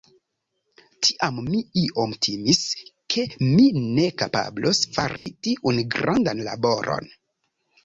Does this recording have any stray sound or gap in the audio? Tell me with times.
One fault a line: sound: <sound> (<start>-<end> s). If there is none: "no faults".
sound: dropout (5.2-5.3 s)